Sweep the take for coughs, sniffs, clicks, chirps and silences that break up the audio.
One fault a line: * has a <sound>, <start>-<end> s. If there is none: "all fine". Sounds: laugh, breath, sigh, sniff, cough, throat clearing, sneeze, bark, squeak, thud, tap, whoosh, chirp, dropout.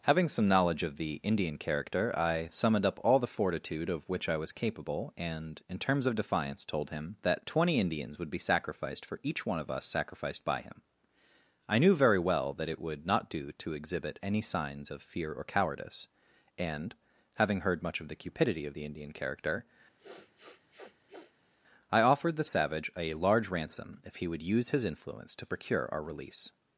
* has a sniff, 20.0-21.5 s